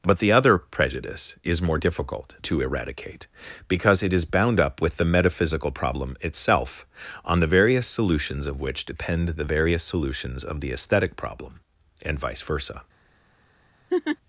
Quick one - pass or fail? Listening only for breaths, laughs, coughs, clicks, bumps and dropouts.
fail